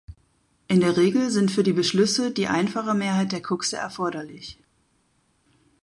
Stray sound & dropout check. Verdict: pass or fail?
pass